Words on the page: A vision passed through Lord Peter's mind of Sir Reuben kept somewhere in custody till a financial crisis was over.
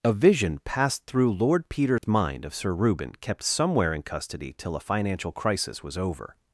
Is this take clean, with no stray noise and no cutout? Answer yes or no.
no